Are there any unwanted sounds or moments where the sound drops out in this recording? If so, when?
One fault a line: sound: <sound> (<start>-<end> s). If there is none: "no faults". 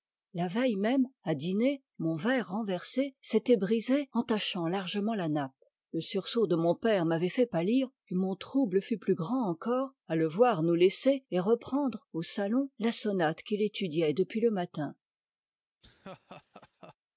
sound: laugh (15.8-17.0 s)